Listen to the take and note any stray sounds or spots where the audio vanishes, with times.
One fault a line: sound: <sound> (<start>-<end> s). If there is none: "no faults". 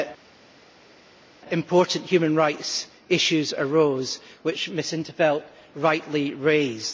no faults